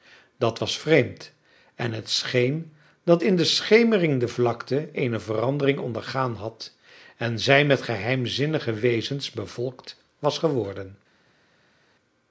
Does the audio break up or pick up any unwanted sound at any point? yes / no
no